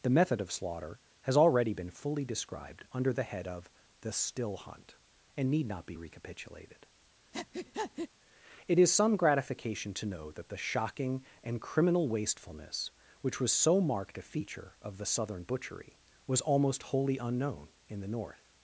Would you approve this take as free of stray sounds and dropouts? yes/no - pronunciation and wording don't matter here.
no